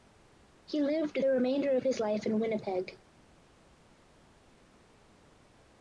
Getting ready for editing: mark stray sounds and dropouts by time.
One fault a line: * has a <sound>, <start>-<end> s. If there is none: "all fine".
all fine